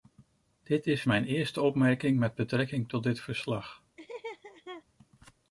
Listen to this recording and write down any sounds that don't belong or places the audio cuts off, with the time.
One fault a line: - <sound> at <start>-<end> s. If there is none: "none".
- laugh at 4.0-4.8 s